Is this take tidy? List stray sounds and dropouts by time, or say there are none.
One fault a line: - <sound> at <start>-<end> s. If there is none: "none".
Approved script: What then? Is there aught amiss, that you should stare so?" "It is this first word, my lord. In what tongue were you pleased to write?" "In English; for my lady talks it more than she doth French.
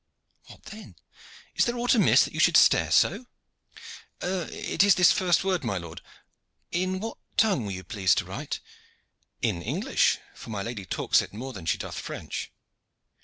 none